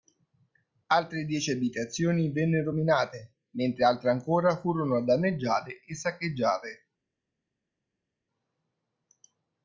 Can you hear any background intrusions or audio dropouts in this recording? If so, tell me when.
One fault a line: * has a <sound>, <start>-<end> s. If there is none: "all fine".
all fine